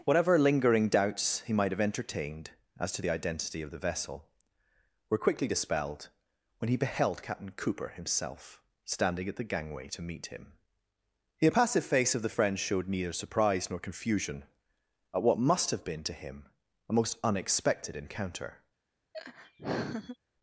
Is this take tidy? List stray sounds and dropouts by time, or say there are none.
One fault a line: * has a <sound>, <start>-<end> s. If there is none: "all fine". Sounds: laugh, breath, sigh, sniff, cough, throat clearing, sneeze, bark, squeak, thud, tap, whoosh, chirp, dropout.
* has a laugh, 19.1-20.2 s